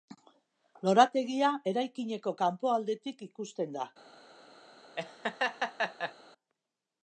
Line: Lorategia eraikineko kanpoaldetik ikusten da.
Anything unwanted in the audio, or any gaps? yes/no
yes